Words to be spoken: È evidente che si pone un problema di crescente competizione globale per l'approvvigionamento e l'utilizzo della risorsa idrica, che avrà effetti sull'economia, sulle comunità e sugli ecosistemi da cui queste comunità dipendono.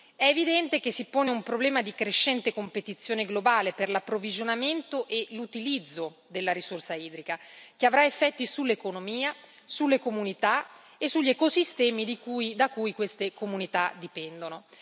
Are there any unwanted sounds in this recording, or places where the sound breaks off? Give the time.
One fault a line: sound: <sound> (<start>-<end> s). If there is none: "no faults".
no faults